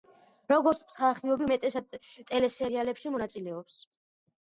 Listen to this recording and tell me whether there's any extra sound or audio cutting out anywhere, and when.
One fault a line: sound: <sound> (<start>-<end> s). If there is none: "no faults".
no faults